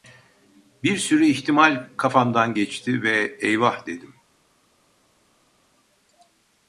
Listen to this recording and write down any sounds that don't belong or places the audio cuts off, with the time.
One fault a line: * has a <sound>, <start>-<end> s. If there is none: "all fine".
all fine